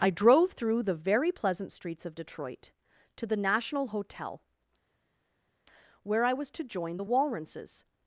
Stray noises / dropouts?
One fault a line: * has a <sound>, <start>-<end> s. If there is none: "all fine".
all fine